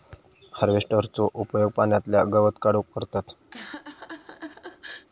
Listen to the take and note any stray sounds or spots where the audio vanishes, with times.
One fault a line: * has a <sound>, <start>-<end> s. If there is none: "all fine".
* has a laugh, 3.5-5.1 s